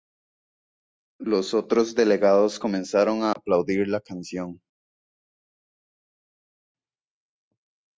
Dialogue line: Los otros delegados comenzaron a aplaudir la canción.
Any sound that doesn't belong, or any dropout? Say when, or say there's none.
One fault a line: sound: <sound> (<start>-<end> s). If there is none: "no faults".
no faults